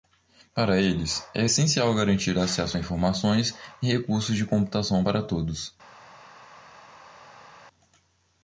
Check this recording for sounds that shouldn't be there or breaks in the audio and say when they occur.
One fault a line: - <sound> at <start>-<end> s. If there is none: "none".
none